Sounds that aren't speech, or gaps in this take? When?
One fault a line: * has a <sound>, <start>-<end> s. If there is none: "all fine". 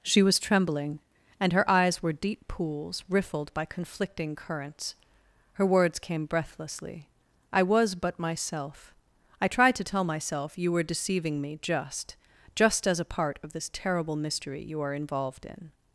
all fine